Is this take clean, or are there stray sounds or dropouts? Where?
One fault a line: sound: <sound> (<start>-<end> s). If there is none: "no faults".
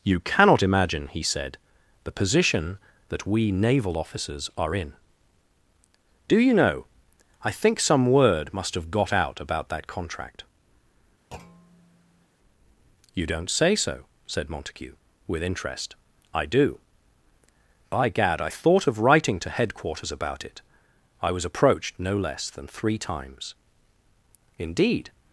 sound: thud (11.3-12.3 s)